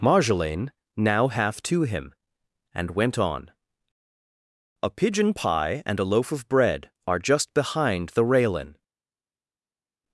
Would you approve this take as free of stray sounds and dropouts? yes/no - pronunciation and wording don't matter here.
yes